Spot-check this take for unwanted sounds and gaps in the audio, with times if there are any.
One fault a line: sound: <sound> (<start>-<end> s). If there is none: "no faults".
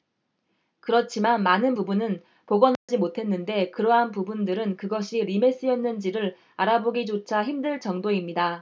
sound: dropout (2.8-2.9 s)